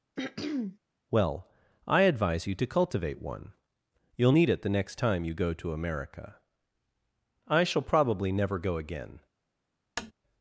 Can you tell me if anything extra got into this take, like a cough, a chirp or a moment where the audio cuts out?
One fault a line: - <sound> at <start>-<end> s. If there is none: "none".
- throat clearing at 0.2-0.8 s
- tap at 10.0-10.1 s